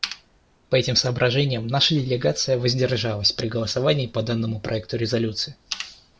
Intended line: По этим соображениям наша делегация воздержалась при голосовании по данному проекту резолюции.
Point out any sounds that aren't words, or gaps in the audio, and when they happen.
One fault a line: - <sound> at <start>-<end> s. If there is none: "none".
none